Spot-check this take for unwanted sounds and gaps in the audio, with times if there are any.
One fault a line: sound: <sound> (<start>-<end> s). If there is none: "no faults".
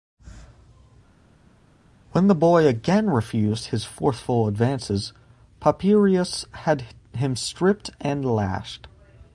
no faults